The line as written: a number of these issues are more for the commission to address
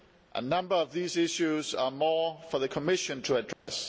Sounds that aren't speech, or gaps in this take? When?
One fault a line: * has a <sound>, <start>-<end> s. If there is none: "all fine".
* has a dropout, 3.5-3.7 s